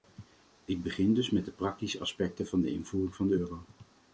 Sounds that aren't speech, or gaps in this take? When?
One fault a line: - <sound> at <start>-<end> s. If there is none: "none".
none